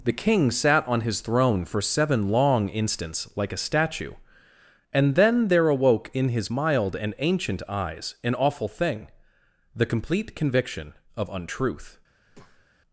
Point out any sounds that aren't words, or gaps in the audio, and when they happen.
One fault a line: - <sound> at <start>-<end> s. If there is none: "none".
- breath at 12.3-12.7 s